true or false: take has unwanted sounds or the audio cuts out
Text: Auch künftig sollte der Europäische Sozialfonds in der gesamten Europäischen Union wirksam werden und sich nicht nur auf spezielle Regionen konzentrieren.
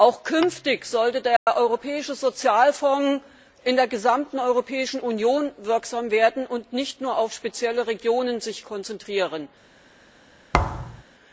true